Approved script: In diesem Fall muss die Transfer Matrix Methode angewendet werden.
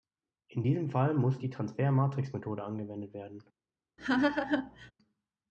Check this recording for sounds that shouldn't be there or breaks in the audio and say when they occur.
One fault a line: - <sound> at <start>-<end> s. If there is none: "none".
- laugh at 4.0-4.9 s